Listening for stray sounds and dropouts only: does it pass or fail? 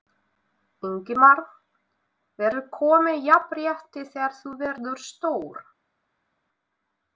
pass